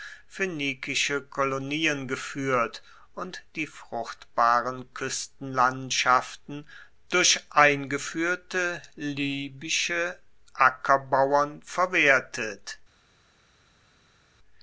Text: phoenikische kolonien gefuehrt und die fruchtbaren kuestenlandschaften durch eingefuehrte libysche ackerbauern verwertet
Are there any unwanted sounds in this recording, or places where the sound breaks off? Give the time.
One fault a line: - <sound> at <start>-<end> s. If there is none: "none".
none